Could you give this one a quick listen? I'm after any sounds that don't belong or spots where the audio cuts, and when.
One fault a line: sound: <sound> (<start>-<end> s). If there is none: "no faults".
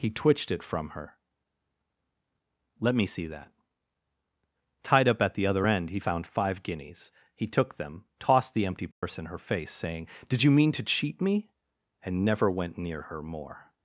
sound: dropout (8.9-9.0 s)